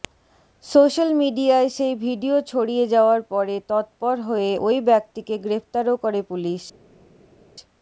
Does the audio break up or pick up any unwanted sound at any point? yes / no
no